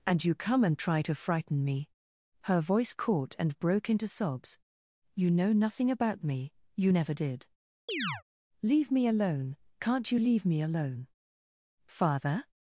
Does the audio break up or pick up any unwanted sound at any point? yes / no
yes